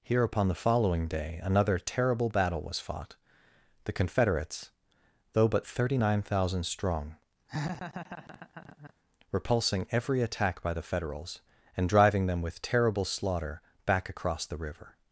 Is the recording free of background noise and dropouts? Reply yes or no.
no